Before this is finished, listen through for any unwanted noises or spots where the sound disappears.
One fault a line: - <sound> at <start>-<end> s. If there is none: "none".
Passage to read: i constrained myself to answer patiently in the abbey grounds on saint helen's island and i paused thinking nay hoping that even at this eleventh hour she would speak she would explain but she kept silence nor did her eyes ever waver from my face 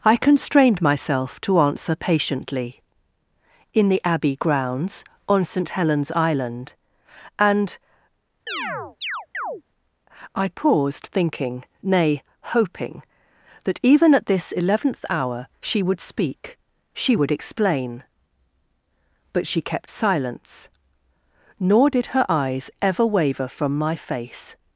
- chirp at 8.5-9.6 s